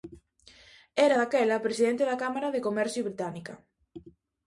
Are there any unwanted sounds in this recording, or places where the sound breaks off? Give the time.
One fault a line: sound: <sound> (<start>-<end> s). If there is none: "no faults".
no faults